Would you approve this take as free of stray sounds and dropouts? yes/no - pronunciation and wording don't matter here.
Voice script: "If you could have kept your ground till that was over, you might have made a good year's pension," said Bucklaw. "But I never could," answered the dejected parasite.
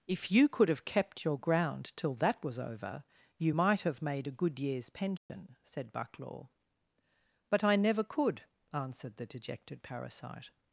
no